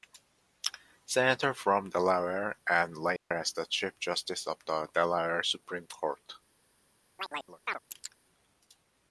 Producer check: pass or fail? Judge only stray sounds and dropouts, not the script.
fail